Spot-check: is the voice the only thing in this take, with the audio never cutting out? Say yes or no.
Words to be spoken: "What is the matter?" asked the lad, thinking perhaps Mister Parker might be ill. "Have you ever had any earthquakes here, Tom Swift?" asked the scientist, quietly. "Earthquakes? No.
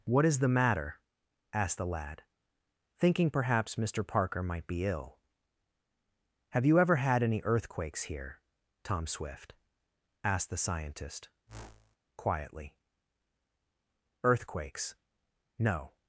no